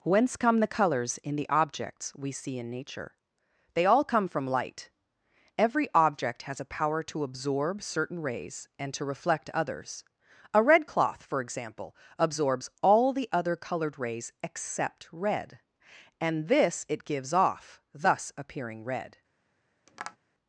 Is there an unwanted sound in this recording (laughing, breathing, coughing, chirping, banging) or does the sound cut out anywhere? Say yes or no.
yes